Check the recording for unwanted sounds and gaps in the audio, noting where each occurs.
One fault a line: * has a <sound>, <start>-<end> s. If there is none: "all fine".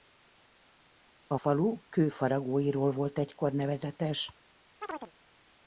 * has a chirp, 4.8-5.1 s